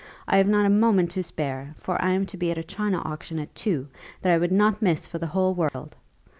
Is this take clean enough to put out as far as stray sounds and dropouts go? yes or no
no